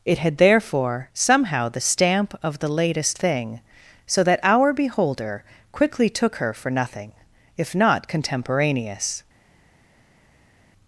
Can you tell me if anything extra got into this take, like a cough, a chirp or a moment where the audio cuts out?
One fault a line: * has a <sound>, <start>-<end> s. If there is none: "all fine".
all fine